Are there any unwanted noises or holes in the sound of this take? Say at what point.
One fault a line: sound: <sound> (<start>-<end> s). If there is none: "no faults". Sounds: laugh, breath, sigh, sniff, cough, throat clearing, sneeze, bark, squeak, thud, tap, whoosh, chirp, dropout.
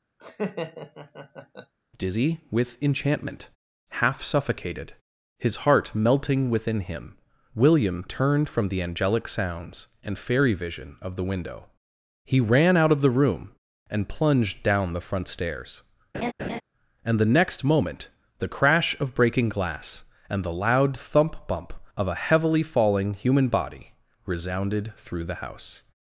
sound: laugh (0.2-1.7 s)
sound: laugh (16.1-16.6 s)